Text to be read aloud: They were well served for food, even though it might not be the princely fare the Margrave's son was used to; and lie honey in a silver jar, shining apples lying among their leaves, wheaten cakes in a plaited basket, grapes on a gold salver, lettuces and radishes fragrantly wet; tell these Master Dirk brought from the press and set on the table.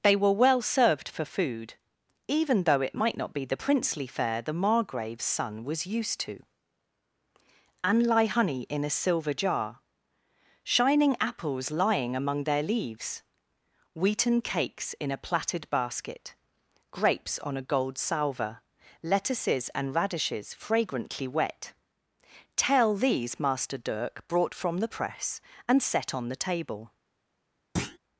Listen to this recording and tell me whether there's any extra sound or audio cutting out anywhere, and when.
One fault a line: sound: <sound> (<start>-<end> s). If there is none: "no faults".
sound: thud (27.8-28.0 s)